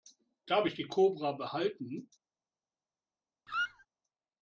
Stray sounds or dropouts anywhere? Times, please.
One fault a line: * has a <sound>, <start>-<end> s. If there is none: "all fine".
* has a squeak, 3.5-3.9 s